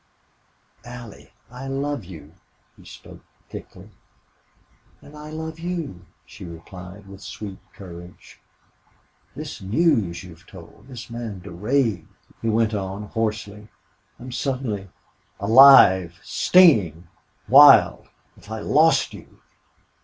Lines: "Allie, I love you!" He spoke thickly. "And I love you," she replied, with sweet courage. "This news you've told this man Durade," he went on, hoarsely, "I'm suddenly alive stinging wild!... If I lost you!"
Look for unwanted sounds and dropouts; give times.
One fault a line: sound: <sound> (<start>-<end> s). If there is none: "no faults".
no faults